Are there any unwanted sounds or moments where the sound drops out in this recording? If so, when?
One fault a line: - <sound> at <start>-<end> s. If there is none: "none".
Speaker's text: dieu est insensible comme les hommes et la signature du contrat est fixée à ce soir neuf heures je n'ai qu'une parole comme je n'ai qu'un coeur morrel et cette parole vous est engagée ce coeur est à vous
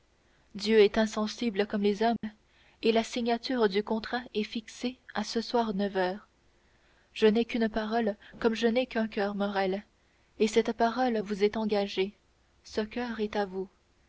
- dropout at 2.2-2.2 s